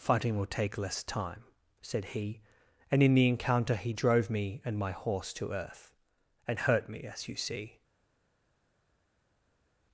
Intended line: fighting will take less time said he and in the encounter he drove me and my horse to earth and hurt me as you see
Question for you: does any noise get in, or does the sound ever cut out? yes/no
no